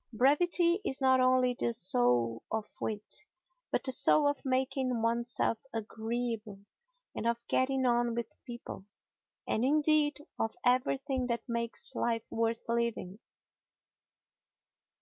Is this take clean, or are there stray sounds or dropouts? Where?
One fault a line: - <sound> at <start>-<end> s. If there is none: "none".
none